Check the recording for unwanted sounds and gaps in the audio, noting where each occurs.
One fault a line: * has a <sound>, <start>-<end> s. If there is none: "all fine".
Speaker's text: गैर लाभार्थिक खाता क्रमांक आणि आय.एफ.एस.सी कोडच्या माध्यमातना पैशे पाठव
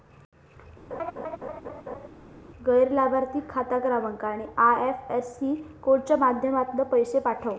* has a laugh, 0.9-2.1 s